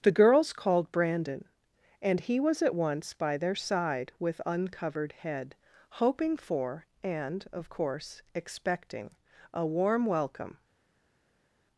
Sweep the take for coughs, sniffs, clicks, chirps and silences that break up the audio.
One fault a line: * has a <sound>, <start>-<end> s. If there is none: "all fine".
all fine